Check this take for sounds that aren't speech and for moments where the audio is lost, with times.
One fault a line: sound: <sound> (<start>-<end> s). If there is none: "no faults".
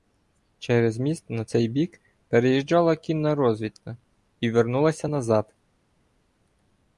no faults